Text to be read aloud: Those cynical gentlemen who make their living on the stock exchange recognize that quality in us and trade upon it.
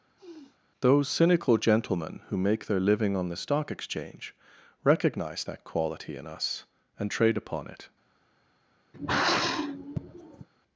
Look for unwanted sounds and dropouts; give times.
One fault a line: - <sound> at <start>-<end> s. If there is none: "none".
- sniff at 0.2-0.6 s
- sigh at 8.9-10.5 s